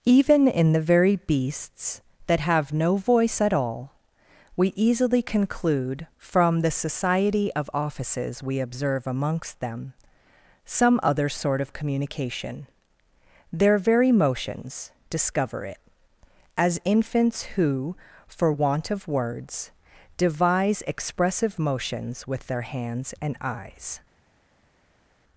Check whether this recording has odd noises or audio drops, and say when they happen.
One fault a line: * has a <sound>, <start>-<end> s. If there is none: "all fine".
all fine